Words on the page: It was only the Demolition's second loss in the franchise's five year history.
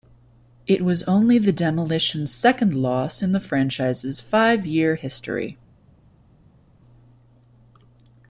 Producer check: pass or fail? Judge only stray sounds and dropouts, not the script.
pass